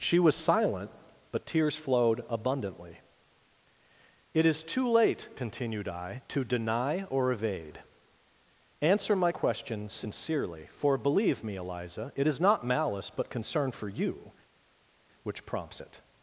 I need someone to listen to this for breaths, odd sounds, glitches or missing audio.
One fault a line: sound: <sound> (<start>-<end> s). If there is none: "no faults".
no faults